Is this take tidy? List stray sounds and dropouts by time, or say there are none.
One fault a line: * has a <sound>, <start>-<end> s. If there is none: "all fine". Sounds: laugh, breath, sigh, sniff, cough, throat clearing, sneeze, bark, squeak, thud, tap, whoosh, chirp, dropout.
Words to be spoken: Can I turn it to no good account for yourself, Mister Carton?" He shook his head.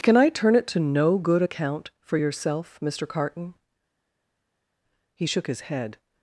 all fine